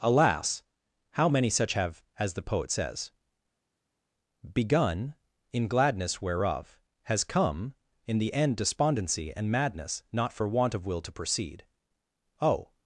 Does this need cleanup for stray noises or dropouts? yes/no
no